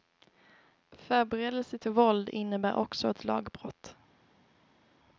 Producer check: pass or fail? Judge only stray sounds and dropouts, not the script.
pass